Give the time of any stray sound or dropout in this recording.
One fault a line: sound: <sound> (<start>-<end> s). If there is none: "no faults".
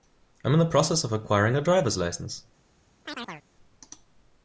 sound: chirp (3.1-3.4 s)